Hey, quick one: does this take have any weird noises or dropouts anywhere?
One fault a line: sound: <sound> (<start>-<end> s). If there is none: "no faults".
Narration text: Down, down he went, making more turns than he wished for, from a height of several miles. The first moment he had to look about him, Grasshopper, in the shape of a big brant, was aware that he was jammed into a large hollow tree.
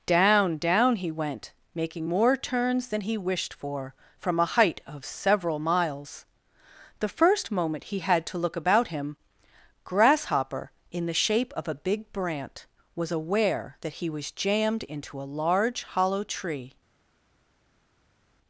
no faults